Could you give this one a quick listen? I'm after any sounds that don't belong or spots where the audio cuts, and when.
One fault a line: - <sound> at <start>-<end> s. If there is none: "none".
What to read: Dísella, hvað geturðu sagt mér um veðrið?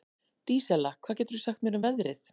none